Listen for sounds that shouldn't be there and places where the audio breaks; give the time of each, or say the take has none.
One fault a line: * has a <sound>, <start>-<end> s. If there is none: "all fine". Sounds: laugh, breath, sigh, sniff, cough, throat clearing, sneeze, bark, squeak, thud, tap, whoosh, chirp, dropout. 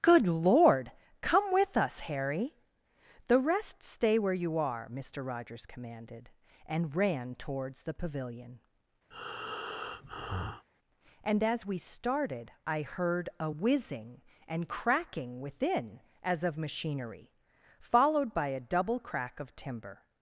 * has a breath, 9.1-10.7 s